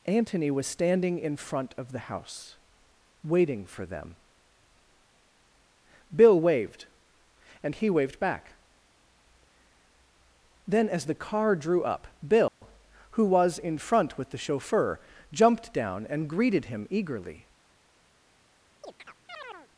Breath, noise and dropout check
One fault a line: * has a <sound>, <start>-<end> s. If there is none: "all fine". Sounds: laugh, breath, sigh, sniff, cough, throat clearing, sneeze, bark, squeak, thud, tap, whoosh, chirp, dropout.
* has a dropout, 12.5-12.6 s
* has a chirp, 18.8-19.7 s